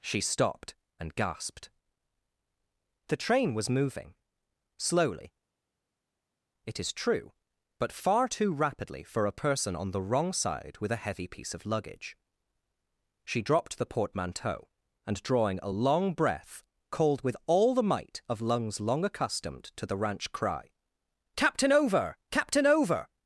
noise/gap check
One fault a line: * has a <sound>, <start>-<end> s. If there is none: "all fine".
all fine